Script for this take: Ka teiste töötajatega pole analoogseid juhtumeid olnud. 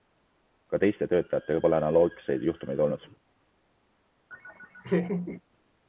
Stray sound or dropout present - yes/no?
yes